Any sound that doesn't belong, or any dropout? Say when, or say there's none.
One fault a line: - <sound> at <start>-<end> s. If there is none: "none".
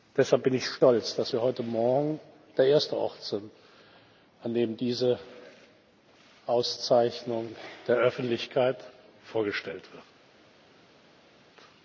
none